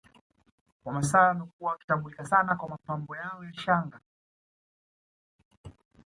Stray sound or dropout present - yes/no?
no